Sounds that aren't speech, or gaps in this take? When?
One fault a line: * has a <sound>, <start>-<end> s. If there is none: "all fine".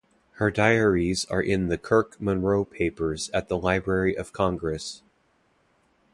all fine